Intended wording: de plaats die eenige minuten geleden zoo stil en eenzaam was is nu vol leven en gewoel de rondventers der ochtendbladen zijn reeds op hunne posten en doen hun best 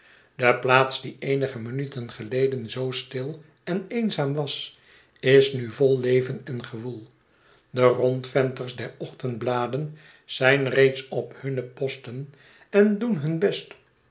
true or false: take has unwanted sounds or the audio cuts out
false